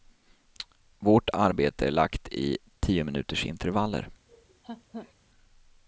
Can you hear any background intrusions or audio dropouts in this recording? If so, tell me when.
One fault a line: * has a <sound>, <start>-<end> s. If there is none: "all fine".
* has a laugh, 4.3-5.1 s